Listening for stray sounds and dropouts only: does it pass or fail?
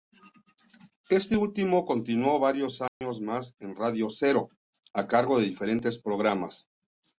fail